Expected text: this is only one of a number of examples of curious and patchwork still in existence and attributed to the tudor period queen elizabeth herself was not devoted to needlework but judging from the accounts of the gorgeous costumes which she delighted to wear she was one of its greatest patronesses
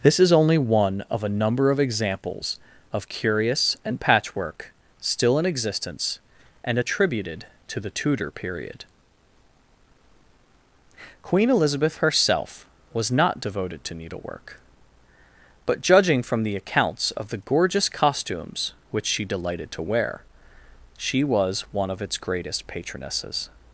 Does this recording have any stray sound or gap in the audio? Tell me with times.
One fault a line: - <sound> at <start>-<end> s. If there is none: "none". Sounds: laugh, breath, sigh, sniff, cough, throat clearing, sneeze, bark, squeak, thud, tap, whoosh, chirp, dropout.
none